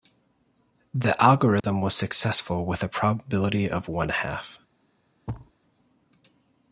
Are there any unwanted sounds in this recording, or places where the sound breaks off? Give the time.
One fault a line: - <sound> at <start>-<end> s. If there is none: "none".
- dropout at 1.6-1.6 s
- thud at 5.3-5.5 s